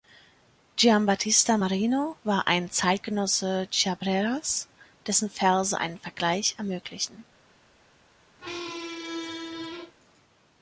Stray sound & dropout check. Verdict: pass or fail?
fail